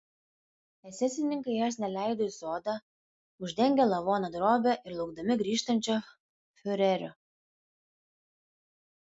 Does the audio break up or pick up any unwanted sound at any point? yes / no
no